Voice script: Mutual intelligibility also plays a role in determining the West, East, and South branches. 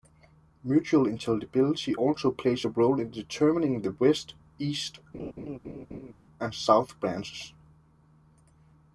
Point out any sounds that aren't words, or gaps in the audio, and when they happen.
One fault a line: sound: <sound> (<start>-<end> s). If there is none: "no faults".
sound: laugh (5.1-6.1 s)